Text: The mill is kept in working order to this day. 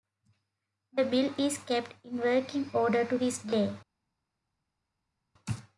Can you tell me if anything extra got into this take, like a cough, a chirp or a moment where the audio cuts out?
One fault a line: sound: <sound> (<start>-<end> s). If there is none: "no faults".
no faults